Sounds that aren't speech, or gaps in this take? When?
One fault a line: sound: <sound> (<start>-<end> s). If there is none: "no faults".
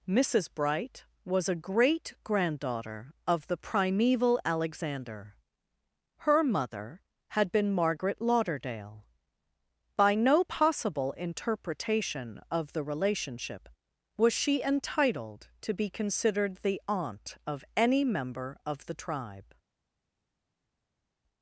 no faults